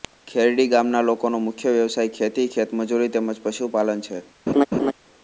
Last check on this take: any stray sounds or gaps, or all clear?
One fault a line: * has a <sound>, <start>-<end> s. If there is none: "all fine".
* has a laugh, 4.5-4.9 s